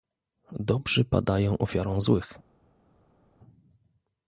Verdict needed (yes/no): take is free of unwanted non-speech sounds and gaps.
yes